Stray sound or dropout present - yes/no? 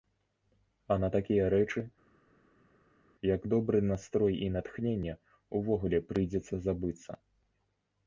no